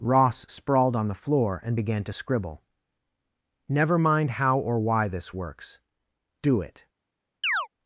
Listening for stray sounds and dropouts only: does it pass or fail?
fail